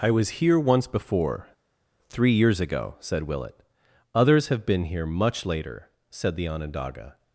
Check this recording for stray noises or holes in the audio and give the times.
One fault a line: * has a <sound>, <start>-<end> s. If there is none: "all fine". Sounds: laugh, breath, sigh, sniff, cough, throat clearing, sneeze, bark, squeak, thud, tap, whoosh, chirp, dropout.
all fine